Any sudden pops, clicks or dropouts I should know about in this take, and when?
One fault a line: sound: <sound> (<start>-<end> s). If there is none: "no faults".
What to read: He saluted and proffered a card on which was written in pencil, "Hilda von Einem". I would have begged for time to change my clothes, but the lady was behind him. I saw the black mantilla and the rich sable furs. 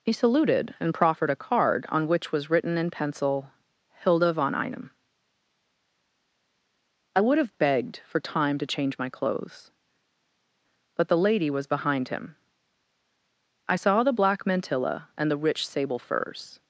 no faults